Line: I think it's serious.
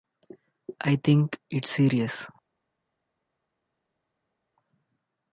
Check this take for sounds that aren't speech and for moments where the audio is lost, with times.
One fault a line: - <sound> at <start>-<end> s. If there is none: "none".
none